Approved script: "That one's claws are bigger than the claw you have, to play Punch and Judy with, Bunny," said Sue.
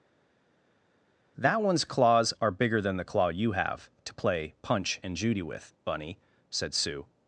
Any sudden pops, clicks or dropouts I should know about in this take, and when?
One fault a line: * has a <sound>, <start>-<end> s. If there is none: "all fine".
all fine